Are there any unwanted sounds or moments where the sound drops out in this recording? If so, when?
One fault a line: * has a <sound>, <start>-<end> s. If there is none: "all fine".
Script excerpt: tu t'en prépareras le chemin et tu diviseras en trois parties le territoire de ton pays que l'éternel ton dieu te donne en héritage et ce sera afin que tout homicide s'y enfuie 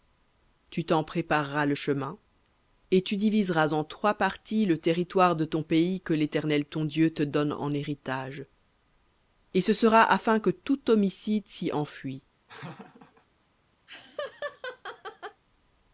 * has a laugh, 12.5-13.3 s
* has a laugh, 13.9-15.4 s